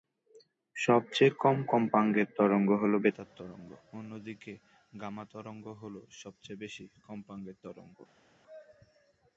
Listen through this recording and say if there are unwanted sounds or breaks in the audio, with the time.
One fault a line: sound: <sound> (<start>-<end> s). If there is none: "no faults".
no faults